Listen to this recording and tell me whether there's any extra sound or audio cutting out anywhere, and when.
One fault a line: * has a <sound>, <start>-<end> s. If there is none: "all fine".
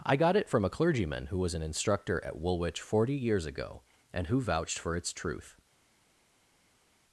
all fine